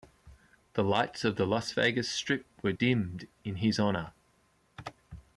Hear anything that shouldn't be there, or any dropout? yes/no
no